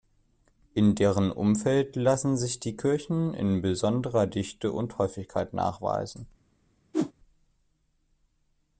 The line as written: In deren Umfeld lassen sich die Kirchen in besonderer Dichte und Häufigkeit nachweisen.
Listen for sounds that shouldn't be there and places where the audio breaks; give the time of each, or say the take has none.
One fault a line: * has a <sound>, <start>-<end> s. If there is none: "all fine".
* has a whoosh, 6.9-7.1 s